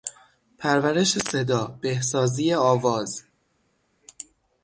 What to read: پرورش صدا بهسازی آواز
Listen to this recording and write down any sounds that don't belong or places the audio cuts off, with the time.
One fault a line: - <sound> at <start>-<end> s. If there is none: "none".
none